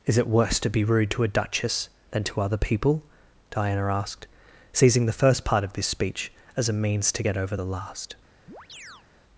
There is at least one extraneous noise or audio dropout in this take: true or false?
true